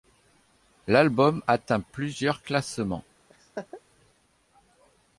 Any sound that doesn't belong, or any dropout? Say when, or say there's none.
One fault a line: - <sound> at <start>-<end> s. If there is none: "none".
- laugh at 3.3-3.8 s